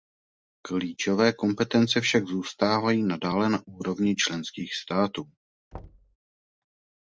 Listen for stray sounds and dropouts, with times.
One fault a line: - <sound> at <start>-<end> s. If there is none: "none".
- thud at 5.7-6.2 s